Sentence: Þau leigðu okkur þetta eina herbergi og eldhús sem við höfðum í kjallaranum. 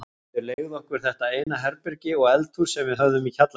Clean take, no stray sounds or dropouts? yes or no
no